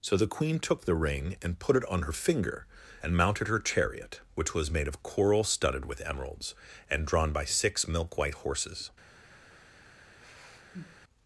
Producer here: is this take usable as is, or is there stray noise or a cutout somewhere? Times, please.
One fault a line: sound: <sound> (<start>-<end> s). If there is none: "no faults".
sound: sigh (10.2-11.0 s)